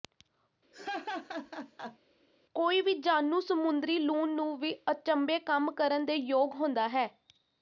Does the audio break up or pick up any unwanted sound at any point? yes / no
yes